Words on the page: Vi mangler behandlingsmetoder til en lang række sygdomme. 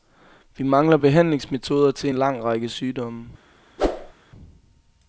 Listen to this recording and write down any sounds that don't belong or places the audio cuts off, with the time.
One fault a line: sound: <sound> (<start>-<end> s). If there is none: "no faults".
sound: whoosh (3.8-4.1 s)